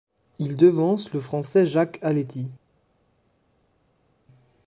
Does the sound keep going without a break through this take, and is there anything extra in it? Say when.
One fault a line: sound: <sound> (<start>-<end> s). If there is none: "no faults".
no faults